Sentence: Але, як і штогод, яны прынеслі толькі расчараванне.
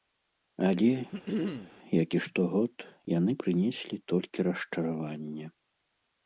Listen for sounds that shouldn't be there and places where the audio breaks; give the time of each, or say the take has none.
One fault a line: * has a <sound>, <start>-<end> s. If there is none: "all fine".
* has a throat clearing, 1.1-1.7 s